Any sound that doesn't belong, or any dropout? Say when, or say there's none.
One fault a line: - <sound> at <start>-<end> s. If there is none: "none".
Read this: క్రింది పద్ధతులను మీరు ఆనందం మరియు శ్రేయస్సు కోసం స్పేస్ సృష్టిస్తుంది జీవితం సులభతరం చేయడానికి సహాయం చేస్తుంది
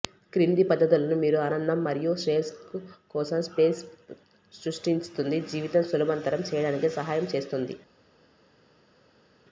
none